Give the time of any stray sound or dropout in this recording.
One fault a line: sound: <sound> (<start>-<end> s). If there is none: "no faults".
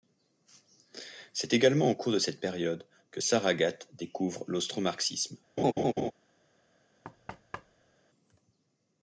sound: laugh (5.6-6.1 s)
sound: thud (7.0-8.0 s)